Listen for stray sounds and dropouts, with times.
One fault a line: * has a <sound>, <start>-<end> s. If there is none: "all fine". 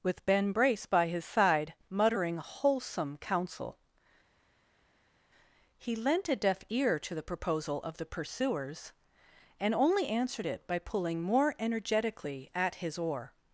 all fine